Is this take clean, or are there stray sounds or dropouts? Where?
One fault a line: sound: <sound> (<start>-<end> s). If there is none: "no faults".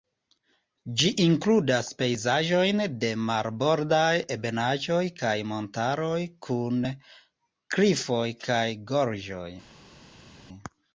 no faults